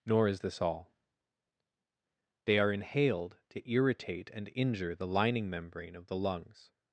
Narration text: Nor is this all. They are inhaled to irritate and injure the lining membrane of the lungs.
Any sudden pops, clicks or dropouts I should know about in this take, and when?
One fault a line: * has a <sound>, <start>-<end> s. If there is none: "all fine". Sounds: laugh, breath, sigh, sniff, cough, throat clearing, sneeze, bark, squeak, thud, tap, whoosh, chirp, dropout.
all fine